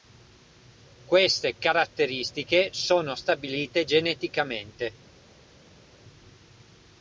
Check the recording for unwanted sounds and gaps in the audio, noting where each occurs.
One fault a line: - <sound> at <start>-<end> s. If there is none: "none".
none